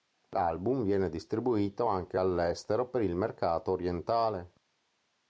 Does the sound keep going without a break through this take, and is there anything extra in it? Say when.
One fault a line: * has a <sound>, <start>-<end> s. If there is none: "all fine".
all fine